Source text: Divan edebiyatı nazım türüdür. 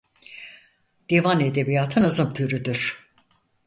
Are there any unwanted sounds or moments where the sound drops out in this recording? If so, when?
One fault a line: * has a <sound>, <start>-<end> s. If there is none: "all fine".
all fine